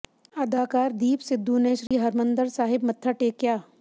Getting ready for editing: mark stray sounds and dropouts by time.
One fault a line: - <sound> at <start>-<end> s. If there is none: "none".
- dropout at 1.9-1.9 s